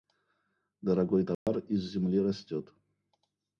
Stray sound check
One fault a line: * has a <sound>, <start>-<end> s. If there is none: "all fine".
* has a dropout, 1.3-1.5 s